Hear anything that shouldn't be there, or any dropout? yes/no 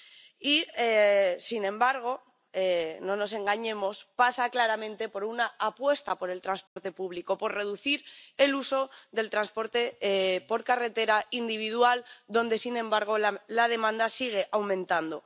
yes